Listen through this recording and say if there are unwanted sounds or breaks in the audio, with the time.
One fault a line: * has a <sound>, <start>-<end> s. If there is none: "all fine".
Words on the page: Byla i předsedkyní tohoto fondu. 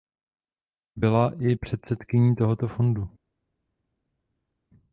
all fine